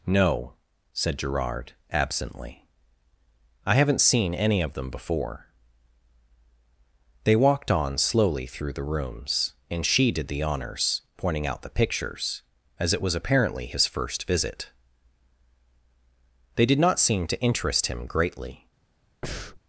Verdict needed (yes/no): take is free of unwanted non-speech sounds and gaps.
no